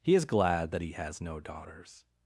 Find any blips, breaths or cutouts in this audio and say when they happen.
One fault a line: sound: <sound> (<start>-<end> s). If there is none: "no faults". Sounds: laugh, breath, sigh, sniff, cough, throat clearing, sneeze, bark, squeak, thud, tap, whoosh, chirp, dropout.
no faults